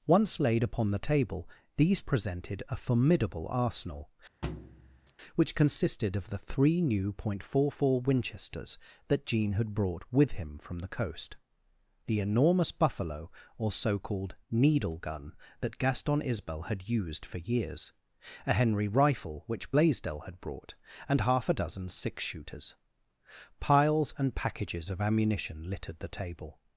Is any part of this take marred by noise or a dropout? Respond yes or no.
yes